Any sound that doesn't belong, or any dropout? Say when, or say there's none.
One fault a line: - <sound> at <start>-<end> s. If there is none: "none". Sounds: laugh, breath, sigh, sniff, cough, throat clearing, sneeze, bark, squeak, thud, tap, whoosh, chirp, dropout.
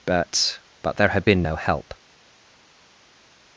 none